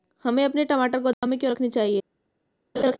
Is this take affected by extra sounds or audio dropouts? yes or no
yes